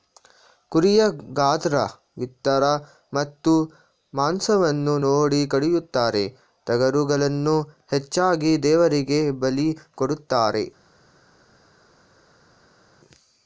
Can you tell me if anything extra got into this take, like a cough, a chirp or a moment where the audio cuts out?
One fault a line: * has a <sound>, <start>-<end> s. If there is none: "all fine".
all fine